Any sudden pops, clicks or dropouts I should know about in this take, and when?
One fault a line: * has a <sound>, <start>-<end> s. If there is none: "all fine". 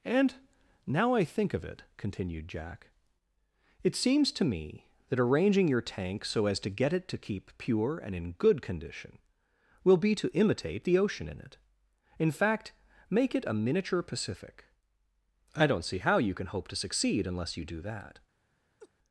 * has a laugh, 18.8-18.9 s